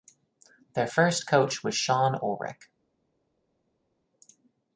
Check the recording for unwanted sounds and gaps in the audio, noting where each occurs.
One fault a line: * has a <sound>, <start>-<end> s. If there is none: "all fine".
all fine